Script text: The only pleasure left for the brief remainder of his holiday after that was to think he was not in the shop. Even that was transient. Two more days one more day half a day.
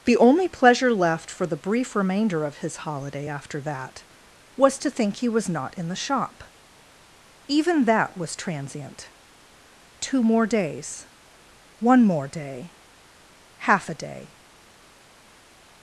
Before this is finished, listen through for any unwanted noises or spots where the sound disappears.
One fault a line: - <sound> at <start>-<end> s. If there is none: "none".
none